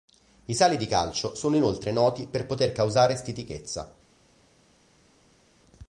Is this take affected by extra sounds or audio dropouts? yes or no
no